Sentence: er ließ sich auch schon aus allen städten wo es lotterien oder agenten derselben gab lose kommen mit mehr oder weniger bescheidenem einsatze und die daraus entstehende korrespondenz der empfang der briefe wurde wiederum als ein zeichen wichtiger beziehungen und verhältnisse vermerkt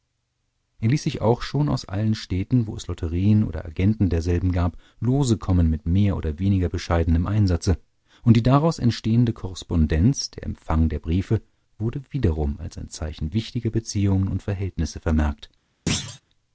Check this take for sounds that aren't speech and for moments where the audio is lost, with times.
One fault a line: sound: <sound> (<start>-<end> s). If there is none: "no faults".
sound: thud (15.9-16.2 s)